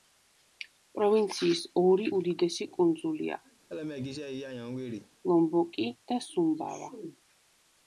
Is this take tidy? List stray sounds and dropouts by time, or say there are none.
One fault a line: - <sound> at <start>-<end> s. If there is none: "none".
- laugh at 3.7-5.1 s